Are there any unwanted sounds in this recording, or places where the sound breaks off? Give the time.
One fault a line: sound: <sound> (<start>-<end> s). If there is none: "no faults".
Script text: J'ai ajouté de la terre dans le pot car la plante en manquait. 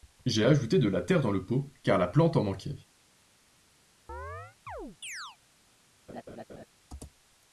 sound: chirp (4.1-5.4 s)
sound: laugh (6.1-6.7 s)